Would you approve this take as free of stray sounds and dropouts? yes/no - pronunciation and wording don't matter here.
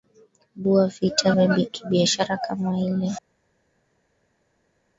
yes